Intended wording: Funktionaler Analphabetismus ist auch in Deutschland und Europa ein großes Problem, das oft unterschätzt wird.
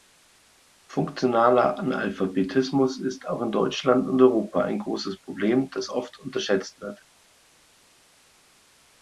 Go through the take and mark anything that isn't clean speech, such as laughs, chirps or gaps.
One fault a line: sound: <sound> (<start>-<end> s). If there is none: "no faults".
no faults